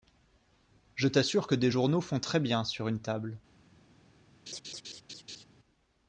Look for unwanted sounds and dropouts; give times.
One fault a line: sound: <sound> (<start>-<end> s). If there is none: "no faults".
sound: laugh (4.5-5.4 s)